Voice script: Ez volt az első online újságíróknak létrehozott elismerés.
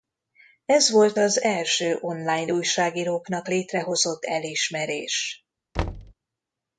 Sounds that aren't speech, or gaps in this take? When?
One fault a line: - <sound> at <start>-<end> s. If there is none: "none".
- thud at 5.7-6.1 s